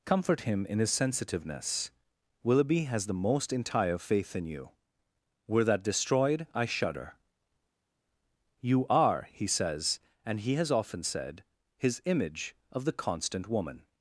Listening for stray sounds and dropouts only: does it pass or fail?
pass